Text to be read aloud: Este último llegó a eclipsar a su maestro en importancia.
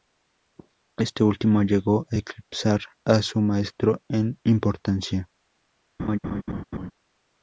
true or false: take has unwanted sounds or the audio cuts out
true